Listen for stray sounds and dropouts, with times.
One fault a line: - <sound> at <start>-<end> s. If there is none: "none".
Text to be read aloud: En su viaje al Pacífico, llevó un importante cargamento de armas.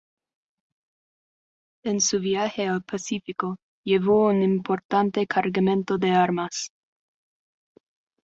none